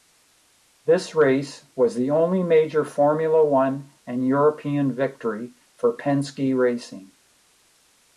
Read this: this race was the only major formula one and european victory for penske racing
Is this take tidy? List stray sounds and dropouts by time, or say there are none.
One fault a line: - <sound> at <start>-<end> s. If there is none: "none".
none